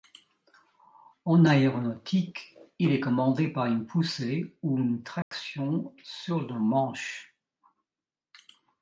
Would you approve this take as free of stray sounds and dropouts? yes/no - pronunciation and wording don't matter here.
no